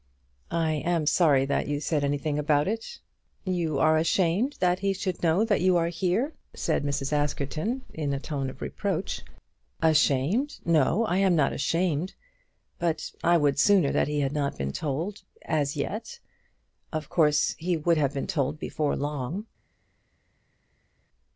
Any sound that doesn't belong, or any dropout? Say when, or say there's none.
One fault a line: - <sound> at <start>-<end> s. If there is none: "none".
none